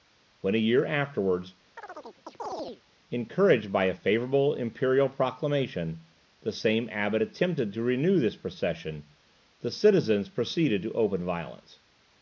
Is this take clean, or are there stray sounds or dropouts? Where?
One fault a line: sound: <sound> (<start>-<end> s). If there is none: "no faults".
sound: chirp (1.8-2.8 s)